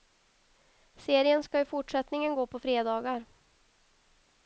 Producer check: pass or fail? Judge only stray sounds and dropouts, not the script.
pass